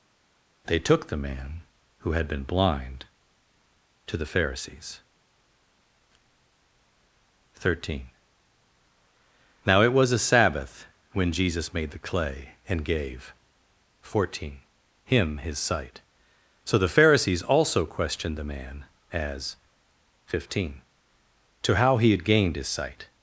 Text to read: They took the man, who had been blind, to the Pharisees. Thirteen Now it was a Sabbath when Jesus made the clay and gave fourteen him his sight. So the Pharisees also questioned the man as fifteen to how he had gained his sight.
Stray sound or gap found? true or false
false